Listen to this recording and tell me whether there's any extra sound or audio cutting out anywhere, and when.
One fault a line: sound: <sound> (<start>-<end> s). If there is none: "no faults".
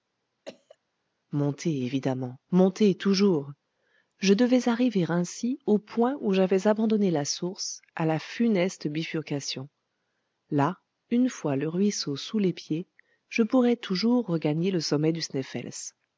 sound: cough (0.5-0.8 s)